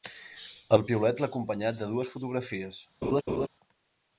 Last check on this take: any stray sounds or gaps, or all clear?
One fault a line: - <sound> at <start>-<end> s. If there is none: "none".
- laugh at 3.0-3.5 s